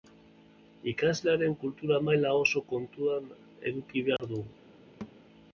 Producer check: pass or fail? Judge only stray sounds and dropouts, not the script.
fail